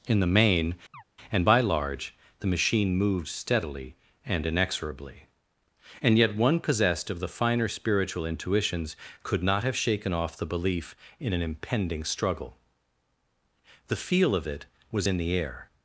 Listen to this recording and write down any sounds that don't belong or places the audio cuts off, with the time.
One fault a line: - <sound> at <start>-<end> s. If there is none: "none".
- chirp at 0.9-1.0 s